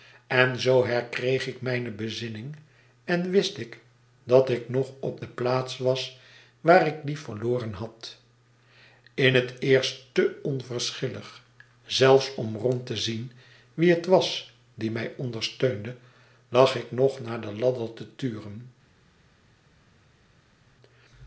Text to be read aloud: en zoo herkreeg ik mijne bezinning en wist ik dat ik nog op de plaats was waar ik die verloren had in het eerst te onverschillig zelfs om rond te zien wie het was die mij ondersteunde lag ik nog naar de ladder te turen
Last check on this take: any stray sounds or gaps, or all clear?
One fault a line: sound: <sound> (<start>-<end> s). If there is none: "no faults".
no faults